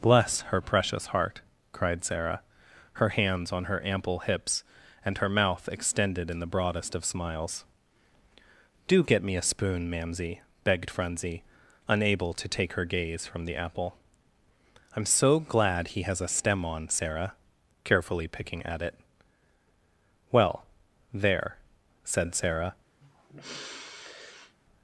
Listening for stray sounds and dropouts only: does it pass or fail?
fail